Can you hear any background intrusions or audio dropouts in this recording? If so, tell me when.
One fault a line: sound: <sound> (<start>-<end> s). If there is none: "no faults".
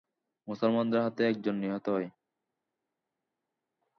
no faults